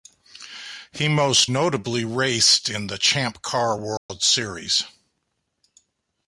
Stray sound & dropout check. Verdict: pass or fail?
fail